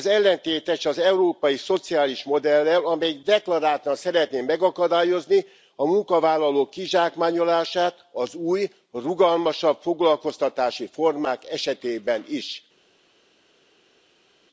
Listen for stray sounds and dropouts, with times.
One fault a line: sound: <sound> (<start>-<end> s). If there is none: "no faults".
no faults